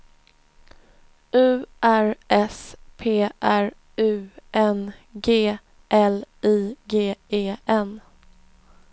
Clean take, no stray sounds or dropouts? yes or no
yes